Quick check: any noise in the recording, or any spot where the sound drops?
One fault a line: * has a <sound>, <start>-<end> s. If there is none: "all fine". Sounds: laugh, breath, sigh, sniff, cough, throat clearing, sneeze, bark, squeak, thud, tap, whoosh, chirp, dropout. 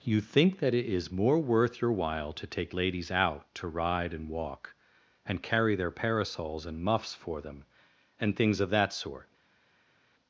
all fine